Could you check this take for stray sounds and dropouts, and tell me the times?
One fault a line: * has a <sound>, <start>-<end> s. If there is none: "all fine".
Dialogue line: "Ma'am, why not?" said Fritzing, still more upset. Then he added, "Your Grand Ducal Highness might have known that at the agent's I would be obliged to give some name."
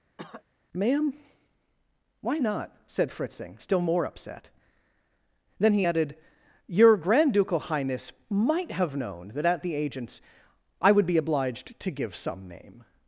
* has a cough, 0.2-0.4 s